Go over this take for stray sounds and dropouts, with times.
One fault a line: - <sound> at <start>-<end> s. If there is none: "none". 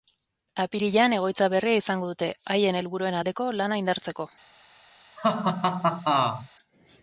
- laugh at 5.2-6.5 s